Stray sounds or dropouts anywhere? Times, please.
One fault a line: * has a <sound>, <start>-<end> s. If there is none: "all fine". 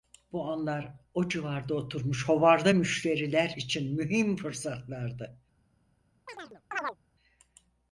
* has a chirp, 6.3-7.0 s